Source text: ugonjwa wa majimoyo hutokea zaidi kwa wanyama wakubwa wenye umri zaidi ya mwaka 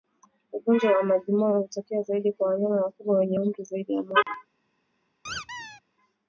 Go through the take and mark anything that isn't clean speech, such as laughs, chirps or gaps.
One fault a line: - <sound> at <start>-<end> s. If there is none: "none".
- dropout at 4.2-4.3 s
- squeak at 5.2-5.8 s